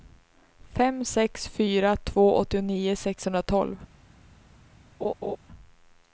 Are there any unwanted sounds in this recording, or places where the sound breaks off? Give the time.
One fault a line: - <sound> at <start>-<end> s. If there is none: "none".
- laugh at 5.0-5.4 s